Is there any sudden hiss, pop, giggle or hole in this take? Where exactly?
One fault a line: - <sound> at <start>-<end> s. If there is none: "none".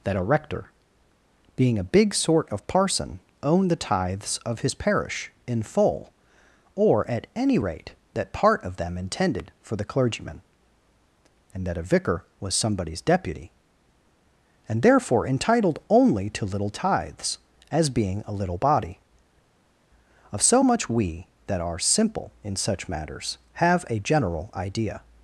none